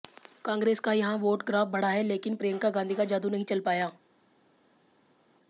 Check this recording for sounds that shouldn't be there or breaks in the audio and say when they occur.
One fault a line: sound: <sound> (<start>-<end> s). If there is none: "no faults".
no faults